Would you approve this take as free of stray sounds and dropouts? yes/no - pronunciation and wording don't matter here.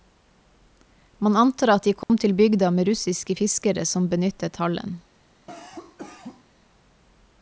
no